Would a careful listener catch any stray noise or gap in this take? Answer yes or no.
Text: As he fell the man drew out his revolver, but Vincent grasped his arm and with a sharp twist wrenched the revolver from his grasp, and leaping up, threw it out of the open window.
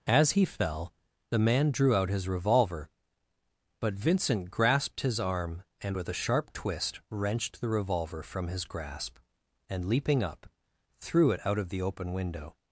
no